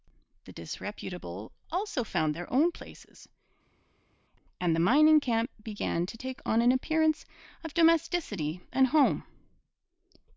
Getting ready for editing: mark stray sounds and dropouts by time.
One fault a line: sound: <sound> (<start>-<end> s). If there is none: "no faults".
no faults